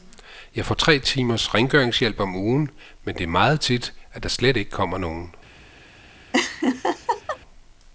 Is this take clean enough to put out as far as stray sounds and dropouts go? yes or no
no